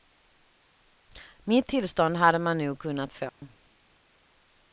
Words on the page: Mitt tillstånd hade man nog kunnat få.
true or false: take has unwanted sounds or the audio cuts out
true